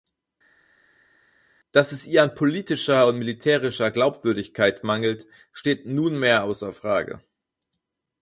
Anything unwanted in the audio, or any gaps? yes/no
no